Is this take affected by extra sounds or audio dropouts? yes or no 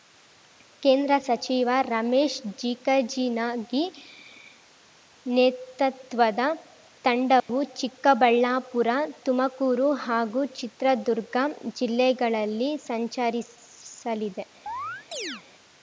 yes